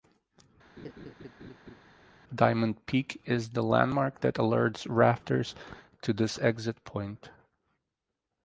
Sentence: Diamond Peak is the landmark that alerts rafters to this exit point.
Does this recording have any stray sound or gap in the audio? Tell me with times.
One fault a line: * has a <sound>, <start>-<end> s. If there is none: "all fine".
* has a laugh, 0.8-1.8 s